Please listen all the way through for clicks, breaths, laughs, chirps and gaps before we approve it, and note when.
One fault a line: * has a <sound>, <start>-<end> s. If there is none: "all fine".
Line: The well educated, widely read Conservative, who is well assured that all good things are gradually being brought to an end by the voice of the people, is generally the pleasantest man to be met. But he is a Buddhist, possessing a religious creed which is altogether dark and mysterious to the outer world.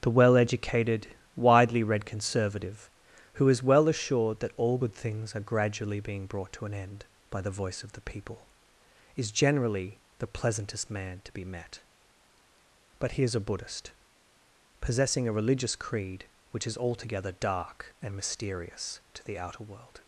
all fine